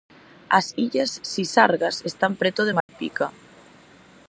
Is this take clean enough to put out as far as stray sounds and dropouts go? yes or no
no